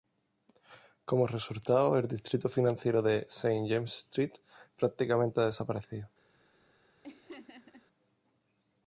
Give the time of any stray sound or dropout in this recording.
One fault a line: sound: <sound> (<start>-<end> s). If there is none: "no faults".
sound: laugh (7.0-7.9 s)